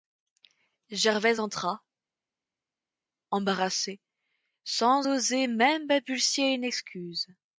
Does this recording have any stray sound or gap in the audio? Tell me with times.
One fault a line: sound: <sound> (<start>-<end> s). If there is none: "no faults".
no faults